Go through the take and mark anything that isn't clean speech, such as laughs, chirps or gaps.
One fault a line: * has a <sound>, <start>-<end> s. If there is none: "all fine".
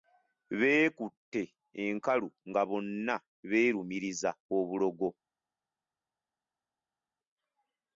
all fine